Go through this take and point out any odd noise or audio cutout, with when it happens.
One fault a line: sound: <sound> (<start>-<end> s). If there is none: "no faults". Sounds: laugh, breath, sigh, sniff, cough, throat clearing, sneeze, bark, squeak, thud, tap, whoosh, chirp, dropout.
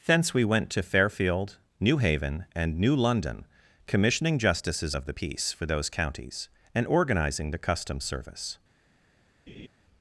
sound: laugh (9.5-9.7 s)